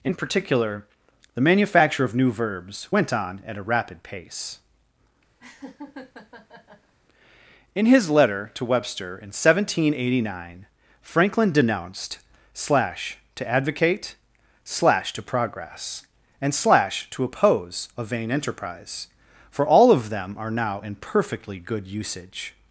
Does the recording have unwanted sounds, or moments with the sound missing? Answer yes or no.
yes